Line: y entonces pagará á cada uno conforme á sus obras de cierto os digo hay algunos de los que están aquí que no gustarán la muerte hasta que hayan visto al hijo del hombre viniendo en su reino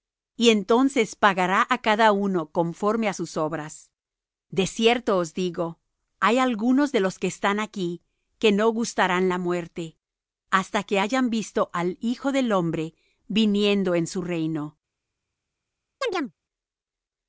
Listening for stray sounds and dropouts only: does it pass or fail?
fail